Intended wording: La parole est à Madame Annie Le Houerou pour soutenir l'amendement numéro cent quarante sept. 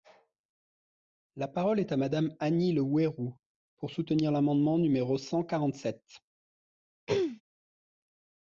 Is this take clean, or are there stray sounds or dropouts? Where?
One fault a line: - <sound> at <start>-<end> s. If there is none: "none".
- throat clearing at 7.1-7.4 s